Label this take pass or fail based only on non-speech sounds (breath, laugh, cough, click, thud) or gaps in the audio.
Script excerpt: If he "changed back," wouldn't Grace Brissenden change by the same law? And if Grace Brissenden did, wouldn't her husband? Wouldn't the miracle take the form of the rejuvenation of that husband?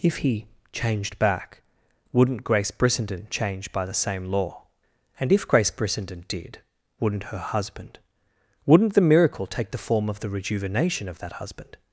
pass